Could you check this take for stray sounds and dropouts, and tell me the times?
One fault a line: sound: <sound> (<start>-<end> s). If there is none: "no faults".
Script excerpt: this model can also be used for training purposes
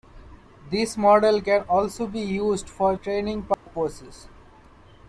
sound: dropout (3.5-3.7 s)